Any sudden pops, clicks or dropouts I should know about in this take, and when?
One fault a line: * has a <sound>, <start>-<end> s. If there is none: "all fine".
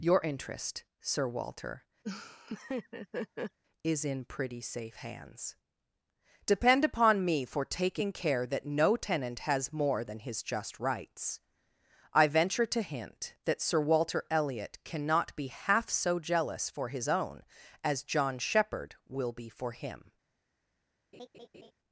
* has a laugh, 2.0-3.6 s
* has a laugh, 21.1-21.7 s